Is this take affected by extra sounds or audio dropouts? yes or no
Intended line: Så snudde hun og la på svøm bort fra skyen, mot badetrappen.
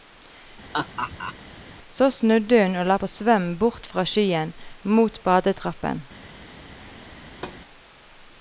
yes